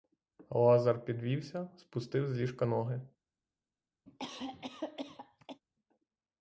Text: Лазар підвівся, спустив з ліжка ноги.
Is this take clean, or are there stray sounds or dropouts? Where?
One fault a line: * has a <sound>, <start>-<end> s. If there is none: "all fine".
* has a cough, 4.1-5.6 s